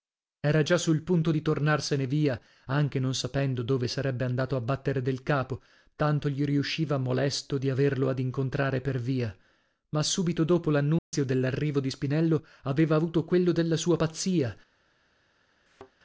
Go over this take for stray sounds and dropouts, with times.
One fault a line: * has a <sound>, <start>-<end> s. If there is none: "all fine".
* has a dropout, 11.0-11.1 s
* has a thud, 15.7-15.9 s